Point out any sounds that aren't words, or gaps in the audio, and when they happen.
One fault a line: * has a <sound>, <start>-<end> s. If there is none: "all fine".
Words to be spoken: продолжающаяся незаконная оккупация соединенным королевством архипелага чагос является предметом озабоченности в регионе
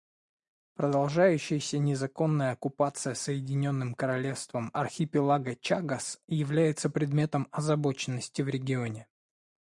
all fine